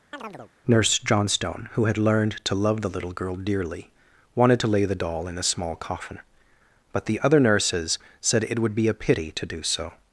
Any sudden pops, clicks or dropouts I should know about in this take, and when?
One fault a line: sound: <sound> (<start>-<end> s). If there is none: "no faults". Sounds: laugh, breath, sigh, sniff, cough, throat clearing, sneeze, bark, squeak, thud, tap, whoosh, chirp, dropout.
sound: chirp (0.1-0.5 s)